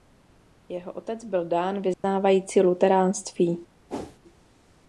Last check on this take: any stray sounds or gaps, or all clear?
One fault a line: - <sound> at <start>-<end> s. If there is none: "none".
- dropout at 1.9-2.0 s
- whoosh at 3.9-4.2 s